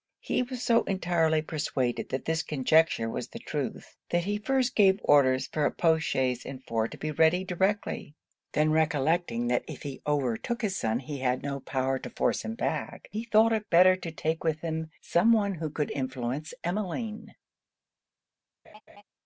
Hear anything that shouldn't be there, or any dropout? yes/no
yes